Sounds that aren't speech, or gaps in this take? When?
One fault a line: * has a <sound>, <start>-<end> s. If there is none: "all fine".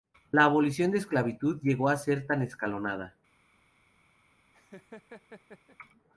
* has a laugh, 4.5-5.8 s